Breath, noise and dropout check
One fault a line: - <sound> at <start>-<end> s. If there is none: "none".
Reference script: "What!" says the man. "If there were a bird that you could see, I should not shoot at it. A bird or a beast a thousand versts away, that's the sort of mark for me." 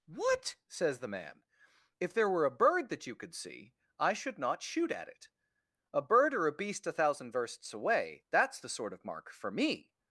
none